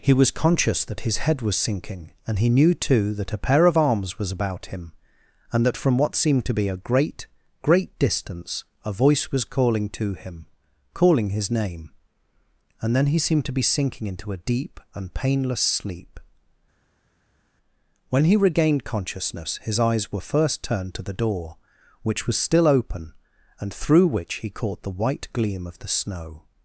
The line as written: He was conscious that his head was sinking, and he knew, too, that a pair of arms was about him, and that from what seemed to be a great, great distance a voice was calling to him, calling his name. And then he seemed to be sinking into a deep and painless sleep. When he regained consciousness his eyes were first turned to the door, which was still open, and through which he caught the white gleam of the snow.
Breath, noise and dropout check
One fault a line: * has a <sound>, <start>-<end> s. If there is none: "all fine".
all fine